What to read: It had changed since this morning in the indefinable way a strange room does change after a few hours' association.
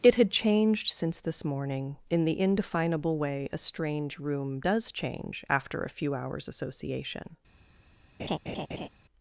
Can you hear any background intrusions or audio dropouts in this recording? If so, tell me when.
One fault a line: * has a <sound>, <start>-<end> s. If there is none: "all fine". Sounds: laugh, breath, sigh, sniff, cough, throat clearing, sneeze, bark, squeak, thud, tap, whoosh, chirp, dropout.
* has a laugh, 8.2-8.9 s